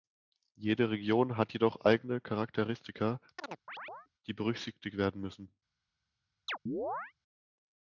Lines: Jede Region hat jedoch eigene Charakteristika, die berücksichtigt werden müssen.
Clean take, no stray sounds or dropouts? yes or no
no